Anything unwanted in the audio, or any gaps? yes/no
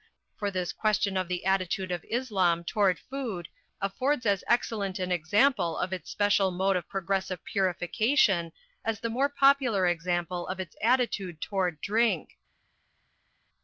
no